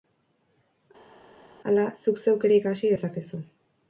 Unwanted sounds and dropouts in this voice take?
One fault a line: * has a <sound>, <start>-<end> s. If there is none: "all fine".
all fine